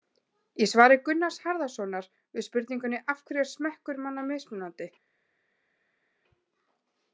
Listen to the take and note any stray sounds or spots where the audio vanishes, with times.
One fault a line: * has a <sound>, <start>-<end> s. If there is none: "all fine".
all fine